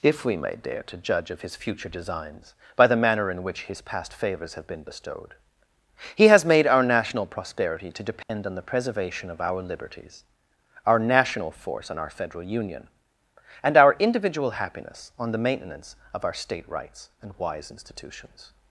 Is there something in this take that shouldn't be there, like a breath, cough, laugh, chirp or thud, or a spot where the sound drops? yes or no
yes